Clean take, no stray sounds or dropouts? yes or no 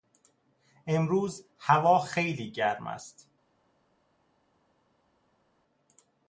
yes